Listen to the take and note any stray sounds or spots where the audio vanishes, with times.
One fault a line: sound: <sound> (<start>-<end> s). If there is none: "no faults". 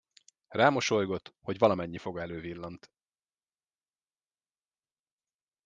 no faults